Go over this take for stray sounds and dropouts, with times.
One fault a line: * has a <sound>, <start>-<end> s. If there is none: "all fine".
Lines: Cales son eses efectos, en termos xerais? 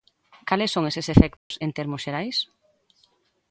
* has a dropout, 1.4-1.5 s